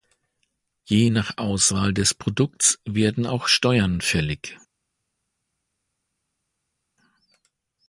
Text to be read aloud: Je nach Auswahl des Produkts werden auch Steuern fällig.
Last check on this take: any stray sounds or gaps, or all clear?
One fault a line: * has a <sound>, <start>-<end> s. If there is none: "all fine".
all fine